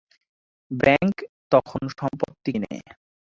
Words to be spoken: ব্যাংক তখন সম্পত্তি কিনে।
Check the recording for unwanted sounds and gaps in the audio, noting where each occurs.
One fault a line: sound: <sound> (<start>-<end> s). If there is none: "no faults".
no faults